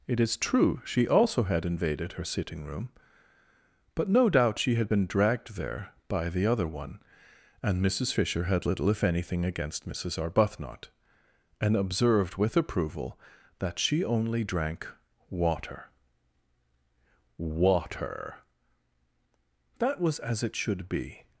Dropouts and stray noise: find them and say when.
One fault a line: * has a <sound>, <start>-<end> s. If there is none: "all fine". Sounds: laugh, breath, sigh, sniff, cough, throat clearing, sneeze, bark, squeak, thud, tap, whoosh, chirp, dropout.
all fine